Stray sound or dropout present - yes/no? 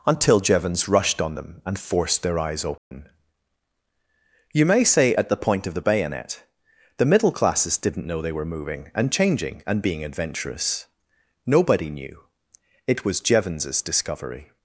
yes